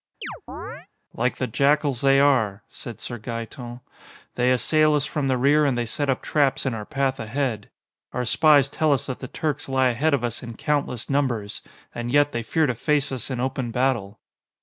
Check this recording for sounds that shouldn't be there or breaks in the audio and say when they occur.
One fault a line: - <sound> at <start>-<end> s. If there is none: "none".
- chirp at 0.2-0.9 s